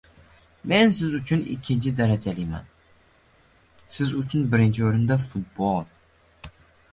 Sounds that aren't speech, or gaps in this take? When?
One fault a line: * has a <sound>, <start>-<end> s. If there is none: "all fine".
all fine